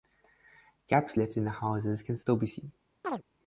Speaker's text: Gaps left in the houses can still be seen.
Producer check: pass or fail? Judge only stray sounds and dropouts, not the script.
fail